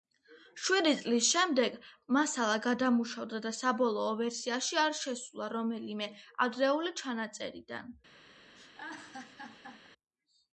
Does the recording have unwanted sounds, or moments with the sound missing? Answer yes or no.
yes